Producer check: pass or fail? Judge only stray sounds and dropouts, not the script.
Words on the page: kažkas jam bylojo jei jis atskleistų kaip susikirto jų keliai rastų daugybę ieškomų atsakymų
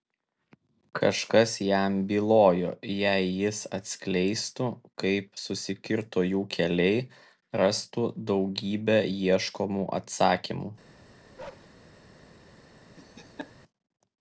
fail